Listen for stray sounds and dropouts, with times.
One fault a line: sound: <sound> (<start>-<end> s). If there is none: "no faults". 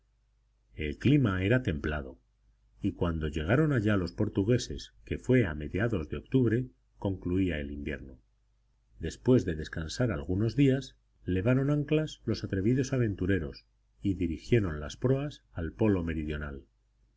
no faults